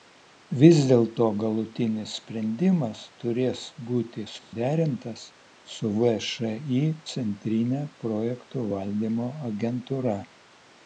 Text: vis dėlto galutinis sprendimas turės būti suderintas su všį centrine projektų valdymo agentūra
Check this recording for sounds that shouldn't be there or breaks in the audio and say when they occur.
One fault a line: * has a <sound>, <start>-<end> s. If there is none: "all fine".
* has a dropout, 4.4-4.5 s